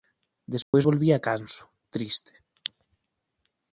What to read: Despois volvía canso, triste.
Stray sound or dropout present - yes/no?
yes